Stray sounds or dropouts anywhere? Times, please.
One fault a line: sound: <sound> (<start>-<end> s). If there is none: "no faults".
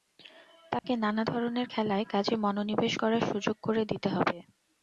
sound: dropout (0.8-0.8 s)